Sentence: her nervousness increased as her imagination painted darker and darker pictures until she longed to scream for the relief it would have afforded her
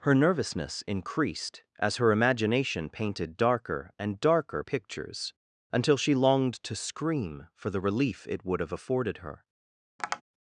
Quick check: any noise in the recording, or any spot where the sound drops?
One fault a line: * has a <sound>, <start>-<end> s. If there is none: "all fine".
* has a tap, 10.0-10.2 s